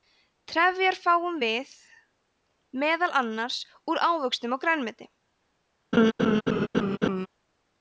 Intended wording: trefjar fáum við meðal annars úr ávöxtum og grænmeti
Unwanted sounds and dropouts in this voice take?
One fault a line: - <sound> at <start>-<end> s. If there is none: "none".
- laugh at 5.9-7.3 s